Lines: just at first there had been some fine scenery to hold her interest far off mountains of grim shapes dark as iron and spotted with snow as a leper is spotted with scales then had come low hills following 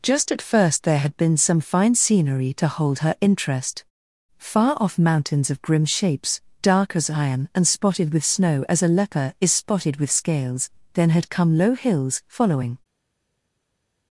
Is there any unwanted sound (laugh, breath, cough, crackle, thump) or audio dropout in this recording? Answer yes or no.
no